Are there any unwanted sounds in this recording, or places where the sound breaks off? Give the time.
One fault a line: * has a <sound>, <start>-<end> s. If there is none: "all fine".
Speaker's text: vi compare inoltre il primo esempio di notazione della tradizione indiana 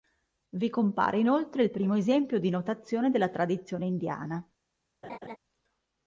* has a laugh, 5.0-5.4 s